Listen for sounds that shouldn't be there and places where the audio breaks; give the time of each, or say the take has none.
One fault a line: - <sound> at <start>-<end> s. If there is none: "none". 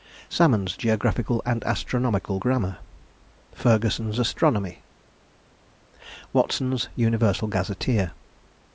none